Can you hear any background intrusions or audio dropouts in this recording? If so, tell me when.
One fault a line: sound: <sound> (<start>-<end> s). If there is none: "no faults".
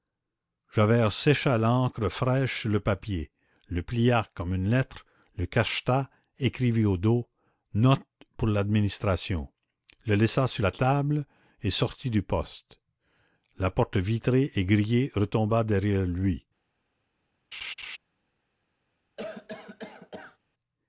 sound: laugh (17.5-18.0 s)
sound: cough (19.2-20.4 s)